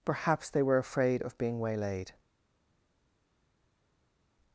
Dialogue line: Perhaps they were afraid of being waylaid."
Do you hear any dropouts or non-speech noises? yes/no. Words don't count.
no